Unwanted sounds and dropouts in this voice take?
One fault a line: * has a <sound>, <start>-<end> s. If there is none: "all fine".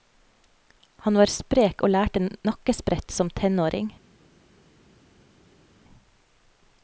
all fine